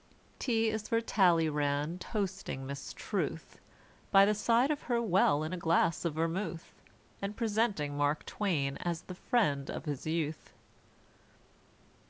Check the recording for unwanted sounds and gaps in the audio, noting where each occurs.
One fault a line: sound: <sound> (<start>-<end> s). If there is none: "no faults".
no faults